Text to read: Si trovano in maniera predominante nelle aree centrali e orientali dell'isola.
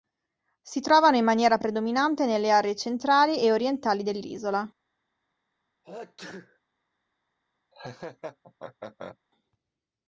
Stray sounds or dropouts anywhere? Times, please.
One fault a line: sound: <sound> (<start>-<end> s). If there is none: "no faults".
sound: sneeze (5.8-6.6 s)
sound: laugh (7.7-9.2 s)